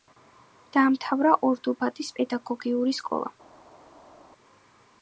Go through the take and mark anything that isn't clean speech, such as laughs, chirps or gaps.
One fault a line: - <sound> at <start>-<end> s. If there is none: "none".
none